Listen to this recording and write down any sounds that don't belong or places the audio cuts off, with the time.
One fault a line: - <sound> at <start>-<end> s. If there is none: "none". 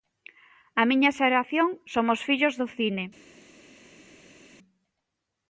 none